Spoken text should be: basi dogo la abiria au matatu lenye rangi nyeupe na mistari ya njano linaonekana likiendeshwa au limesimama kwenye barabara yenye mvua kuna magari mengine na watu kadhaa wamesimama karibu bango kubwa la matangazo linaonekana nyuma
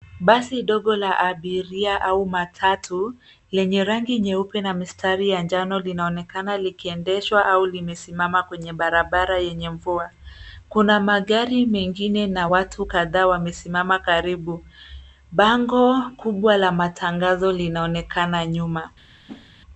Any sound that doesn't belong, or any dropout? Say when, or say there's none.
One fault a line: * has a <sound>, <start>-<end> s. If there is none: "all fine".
* has a whoosh, 19.3-19.5 s